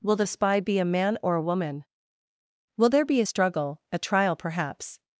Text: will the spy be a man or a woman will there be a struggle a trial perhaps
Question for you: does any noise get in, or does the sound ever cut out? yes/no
no